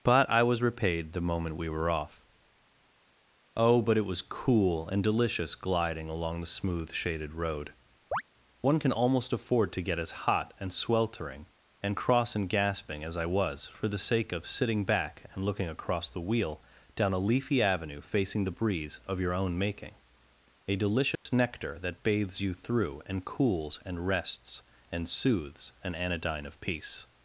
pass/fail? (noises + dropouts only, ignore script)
fail